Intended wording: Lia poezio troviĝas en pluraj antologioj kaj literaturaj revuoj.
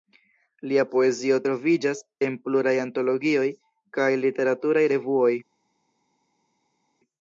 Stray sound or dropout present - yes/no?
no